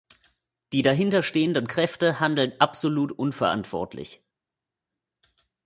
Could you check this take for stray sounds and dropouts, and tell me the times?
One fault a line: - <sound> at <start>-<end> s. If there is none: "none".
none